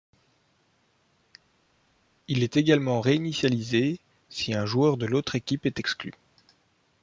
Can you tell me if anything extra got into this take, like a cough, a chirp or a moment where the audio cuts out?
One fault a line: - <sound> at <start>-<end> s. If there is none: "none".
none